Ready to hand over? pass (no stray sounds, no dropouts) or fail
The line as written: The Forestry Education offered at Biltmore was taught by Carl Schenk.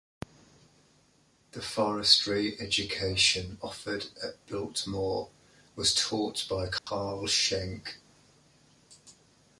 fail